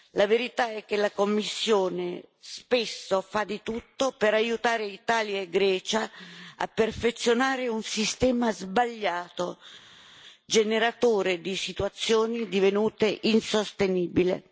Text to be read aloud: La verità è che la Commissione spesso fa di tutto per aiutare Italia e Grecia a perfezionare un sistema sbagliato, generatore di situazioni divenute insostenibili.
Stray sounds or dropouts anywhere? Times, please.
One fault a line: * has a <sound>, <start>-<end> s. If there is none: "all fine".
all fine